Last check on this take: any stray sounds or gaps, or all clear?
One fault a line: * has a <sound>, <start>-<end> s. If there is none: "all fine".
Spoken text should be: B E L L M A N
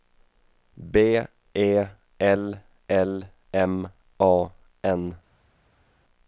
all fine